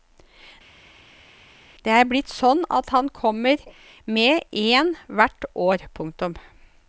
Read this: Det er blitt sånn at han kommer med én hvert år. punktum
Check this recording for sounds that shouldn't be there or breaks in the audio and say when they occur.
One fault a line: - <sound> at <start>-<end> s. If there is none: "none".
none